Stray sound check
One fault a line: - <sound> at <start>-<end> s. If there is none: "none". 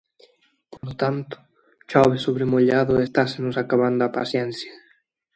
- dropout at 0.8-0.8 s